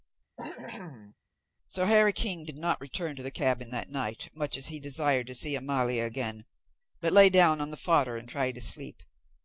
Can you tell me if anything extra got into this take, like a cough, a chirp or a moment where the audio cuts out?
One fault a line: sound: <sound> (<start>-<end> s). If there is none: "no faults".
sound: cough (0.4-1.2 s)